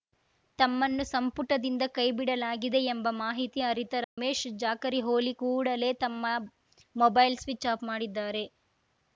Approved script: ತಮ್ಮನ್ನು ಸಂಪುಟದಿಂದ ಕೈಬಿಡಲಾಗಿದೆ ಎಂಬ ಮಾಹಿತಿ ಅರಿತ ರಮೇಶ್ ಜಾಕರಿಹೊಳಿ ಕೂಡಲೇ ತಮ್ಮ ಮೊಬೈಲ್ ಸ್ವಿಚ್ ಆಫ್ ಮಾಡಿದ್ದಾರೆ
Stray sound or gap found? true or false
true